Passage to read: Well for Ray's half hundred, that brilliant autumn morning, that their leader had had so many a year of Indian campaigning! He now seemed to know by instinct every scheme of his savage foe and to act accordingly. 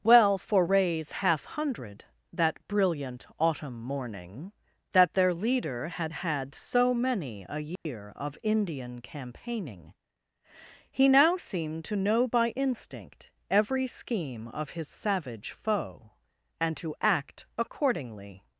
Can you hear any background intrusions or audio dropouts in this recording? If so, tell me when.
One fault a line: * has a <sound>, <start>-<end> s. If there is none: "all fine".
* has a dropout, 7.8-7.9 s